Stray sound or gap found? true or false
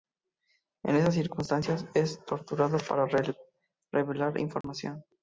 true